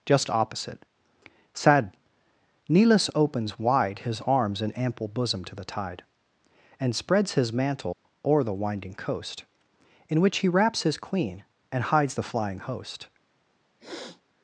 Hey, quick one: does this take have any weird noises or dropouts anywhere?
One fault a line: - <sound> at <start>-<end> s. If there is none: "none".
- dropout at 7.9-8.0 s
- sniff at 13.8-14.2 s